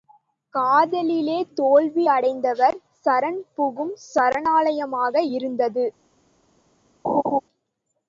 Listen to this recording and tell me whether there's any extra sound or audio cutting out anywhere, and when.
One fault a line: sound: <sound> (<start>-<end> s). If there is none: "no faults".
sound: laugh (7.0-7.4 s)